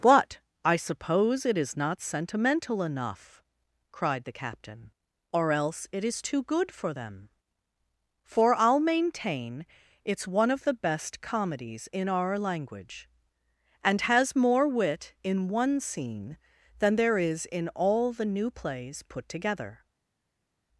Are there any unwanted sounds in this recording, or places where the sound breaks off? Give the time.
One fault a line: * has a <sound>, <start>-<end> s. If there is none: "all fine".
all fine